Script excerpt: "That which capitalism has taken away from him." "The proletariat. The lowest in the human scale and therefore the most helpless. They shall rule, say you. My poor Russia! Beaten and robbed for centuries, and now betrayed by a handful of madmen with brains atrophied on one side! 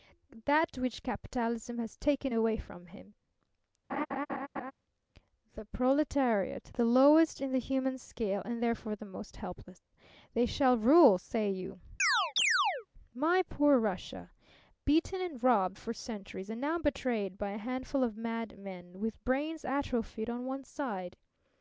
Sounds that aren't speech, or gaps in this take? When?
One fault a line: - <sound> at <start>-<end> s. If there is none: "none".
- laugh at 3.9-4.7 s
- chirp at 12.0-12.9 s